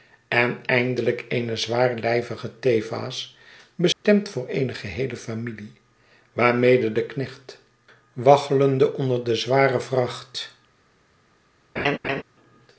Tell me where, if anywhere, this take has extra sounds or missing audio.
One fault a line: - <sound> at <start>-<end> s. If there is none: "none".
- dropout at 3.9-4.0 s
- laugh at 11.8-12.2 s